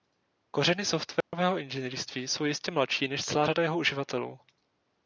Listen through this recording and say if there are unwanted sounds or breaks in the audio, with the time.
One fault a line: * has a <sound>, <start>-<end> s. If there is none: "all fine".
* has a dropout, 1.2-1.3 s